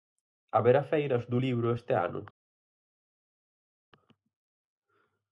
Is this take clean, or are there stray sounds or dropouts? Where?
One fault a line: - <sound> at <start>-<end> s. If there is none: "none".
none